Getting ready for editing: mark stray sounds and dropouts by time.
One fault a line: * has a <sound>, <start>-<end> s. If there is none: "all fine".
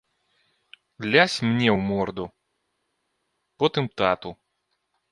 all fine